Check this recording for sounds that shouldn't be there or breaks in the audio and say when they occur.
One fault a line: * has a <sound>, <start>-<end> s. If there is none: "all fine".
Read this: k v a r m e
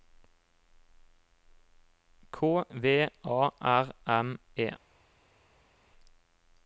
all fine